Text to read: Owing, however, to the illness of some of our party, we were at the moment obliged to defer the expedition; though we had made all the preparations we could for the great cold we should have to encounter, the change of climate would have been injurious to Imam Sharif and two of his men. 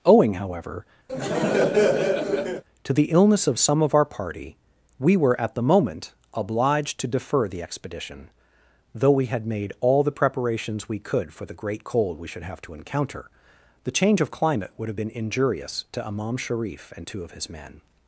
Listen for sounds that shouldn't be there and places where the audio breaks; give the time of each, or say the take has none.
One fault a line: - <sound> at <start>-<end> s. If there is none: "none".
- laugh at 1.1-2.6 s